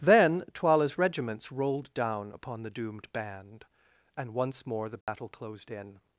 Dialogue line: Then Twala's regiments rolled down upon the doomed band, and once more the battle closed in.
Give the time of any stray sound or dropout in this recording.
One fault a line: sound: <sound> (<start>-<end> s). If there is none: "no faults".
sound: dropout (5.0-5.1 s)